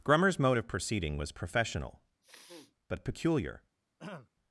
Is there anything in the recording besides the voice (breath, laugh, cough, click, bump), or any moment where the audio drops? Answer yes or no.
yes